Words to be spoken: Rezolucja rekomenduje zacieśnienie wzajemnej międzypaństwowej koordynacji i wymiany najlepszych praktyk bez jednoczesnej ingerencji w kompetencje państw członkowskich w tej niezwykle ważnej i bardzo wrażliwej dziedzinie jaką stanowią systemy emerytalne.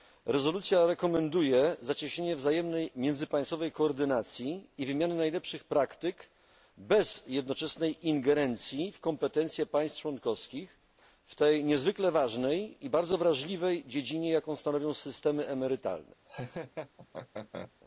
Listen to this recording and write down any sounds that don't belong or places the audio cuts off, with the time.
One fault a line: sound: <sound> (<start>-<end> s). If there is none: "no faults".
sound: laugh (16.2-17.7 s)